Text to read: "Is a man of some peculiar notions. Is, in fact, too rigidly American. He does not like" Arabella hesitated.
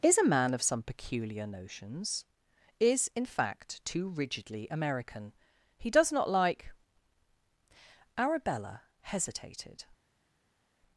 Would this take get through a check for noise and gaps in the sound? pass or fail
pass